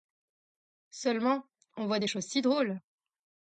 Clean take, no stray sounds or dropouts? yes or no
yes